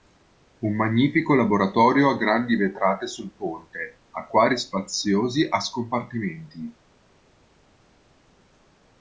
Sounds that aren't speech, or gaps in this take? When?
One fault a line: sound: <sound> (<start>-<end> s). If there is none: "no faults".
no faults